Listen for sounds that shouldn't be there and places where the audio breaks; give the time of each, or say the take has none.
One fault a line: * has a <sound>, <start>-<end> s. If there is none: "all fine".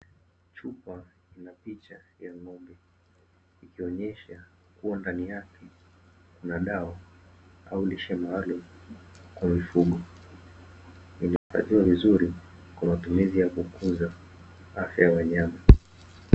* has a dropout, 11.4-11.5 s